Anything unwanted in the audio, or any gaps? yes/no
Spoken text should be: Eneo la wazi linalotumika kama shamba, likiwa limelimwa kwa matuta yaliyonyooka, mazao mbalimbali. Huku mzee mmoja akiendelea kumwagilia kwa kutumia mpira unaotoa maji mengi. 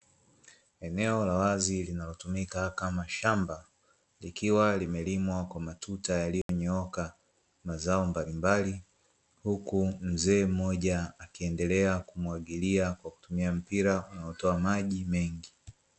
yes